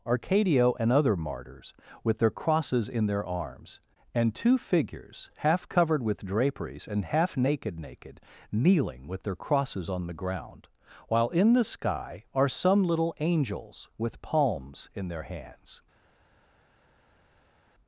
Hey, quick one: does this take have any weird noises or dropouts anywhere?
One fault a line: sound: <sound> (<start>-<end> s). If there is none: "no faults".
no faults